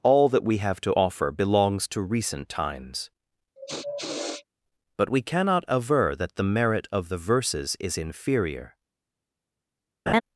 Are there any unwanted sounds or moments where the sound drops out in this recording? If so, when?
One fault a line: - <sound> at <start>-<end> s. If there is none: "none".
- sniff at 3.6-4.4 s
- laugh at 10.1-10.2 s